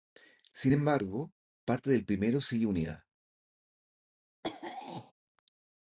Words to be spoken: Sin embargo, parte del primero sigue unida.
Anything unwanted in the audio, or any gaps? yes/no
yes